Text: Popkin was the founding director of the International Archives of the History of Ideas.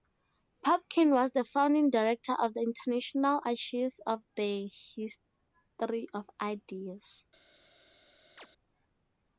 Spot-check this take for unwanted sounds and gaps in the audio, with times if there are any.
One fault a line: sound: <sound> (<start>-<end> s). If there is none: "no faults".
sound: chirp (8.4-8.5 s)